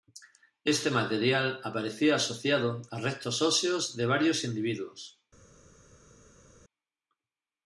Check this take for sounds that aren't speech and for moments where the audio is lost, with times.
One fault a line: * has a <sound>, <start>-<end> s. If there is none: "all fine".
all fine